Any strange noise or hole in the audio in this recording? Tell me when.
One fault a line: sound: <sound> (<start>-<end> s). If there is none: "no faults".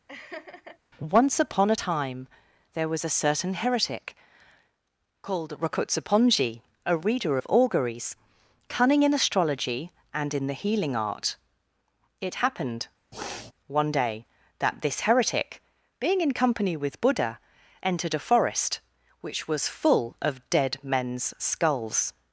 sound: laugh (0.1-0.8 s)
sound: sniff (13.1-13.5 s)